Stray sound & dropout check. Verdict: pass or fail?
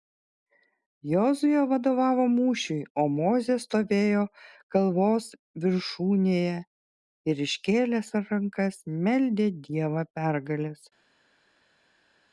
pass